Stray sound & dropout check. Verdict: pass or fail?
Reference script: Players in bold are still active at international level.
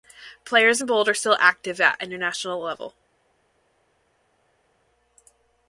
pass